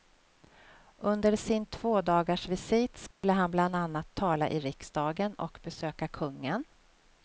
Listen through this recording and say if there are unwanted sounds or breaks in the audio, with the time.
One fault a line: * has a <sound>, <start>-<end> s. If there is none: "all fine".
* has a dropout, 3.1-3.2 s